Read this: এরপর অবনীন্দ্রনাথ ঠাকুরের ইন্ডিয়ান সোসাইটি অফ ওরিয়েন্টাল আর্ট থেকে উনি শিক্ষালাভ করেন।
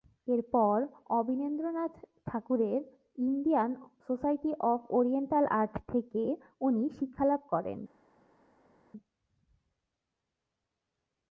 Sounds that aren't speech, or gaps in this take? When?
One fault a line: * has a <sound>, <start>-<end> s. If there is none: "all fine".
all fine